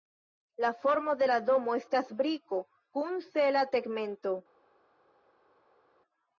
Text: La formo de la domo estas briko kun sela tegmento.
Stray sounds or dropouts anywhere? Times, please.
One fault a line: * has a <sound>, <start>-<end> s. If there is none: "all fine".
all fine